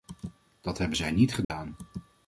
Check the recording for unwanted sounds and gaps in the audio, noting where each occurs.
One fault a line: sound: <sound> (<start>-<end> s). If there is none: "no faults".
sound: dropout (1.4-1.5 s)